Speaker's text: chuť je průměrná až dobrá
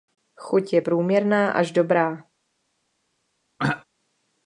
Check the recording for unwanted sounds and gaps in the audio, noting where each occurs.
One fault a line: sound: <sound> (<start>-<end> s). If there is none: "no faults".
sound: throat clearing (3.6-3.8 s)